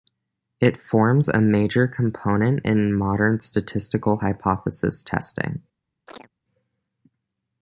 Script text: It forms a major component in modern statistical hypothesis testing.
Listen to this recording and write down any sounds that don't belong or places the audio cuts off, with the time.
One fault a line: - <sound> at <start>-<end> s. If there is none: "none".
- chirp at 6.1-6.3 s